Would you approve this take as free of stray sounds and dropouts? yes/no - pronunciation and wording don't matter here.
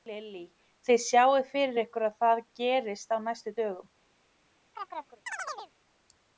no